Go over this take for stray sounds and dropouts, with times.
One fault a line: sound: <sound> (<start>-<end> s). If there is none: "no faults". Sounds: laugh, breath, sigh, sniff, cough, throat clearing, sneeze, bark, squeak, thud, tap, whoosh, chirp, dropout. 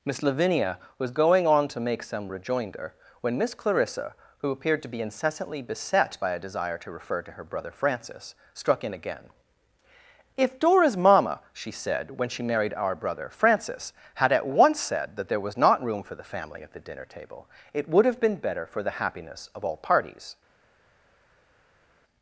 no faults